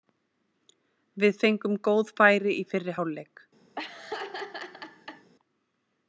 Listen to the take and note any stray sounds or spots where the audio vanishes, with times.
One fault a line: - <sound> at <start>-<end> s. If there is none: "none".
- laugh at 3.8-5.3 s